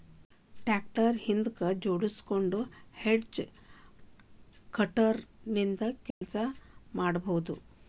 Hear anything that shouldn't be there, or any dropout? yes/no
yes